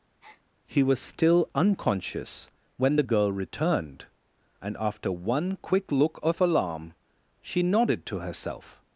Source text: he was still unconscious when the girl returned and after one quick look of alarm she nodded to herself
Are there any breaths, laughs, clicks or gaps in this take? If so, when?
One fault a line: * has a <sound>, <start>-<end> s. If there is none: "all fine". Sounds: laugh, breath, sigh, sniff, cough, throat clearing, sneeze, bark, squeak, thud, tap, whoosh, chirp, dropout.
* has a breath, 0.2-0.4 s